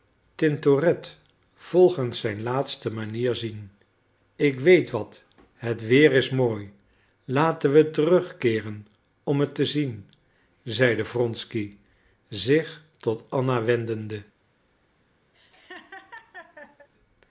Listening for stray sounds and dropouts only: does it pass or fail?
fail